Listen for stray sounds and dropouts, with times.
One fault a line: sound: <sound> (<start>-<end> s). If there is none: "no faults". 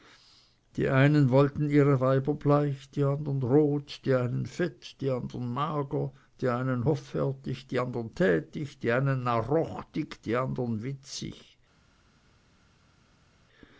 no faults